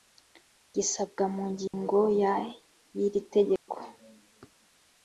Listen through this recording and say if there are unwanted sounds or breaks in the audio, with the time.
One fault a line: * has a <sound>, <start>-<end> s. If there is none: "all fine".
* has a dropout, 1.7-1.7 s
* has a dropout, 3.6-3.7 s